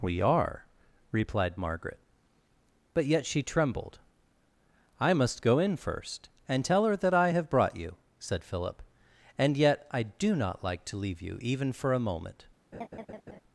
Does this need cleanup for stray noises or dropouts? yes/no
yes